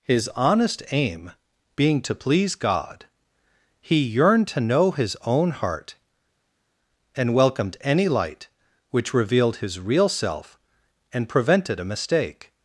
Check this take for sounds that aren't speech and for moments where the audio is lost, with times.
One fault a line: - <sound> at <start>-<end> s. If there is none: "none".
none